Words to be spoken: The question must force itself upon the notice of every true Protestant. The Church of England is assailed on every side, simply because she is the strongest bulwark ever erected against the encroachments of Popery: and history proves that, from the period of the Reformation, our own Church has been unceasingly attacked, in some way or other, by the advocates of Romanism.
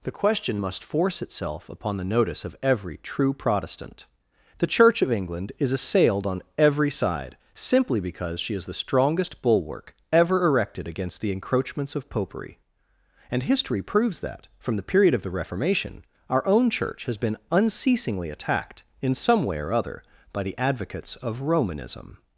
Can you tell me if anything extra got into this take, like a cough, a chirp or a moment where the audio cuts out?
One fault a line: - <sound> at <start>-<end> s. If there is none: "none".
none